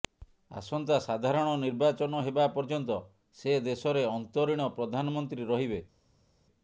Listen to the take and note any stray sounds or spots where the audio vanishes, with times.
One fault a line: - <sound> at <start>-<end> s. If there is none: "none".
none